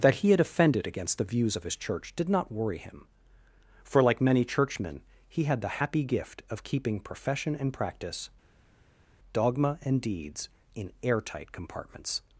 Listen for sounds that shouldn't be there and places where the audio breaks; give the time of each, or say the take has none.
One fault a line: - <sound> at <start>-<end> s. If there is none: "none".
none